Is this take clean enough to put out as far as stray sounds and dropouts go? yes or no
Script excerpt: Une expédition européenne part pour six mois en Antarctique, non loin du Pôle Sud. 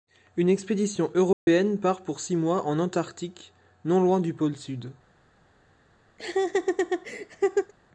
no